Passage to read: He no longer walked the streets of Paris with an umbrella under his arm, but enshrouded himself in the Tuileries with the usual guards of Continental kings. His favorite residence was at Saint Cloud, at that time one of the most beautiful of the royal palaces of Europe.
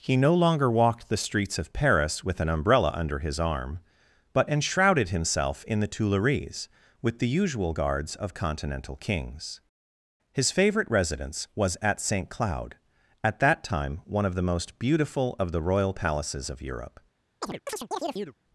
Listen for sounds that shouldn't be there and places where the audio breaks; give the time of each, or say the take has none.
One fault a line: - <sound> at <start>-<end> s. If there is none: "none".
- chirp at 17.4-18.4 s